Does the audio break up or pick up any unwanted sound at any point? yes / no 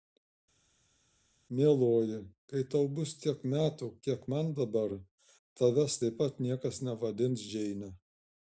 no